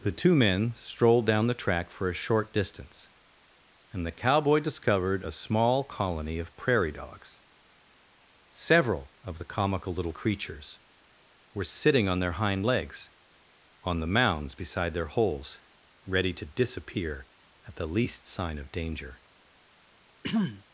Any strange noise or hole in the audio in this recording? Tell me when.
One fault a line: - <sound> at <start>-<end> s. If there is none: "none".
- throat clearing at 20.2-20.6 s